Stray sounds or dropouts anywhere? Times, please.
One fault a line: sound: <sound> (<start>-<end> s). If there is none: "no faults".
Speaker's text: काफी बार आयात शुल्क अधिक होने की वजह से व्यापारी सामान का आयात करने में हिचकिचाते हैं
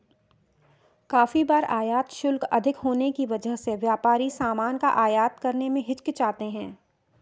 no faults